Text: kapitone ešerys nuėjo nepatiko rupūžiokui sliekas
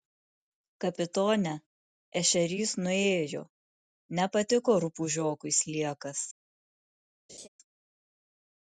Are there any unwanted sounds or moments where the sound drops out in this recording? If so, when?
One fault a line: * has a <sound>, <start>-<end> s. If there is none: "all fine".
* has a laugh, 7.3-7.5 s